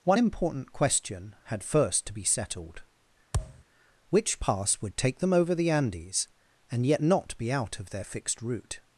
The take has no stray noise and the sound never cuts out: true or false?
false